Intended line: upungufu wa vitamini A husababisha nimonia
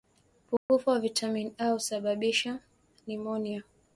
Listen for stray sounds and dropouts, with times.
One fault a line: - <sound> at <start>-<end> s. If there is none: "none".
- dropout at 0.6-0.7 s